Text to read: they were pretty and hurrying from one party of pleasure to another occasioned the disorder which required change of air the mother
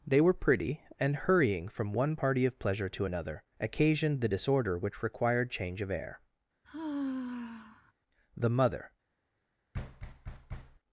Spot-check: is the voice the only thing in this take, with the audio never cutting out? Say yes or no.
no